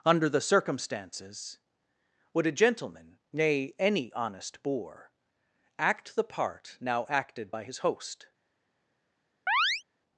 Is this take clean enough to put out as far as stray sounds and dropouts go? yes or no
no